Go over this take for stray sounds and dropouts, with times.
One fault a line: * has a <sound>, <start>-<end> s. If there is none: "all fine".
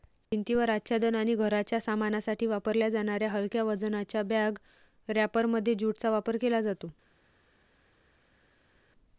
all fine